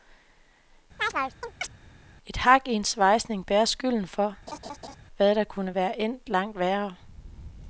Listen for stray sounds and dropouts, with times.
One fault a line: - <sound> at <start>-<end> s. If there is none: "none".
- chirp at 1.0-1.7 s
- laugh at 4.5-5.0 s